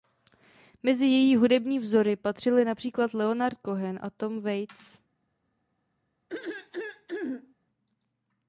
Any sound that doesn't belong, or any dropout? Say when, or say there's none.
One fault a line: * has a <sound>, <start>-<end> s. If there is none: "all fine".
* has a throat clearing, 6.3-7.5 s